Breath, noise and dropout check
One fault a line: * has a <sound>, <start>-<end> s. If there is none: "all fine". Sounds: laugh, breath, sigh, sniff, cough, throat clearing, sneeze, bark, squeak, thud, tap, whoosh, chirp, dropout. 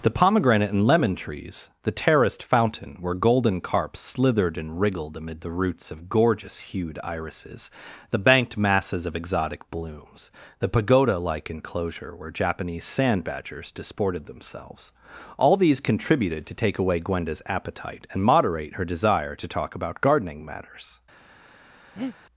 * has a breath, 22.0-22.2 s